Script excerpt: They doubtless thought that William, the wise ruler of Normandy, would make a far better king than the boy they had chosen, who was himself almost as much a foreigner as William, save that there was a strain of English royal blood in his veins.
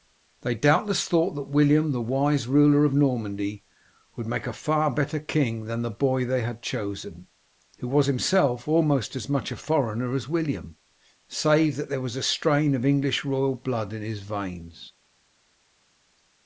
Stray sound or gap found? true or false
false